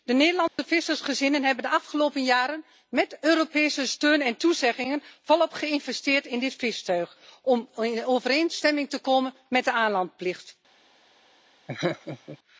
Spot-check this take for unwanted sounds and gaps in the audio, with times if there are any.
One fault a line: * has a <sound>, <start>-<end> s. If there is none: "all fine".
* has a dropout, 0.5-0.6 s
* has a laugh, 11.7-12.4 s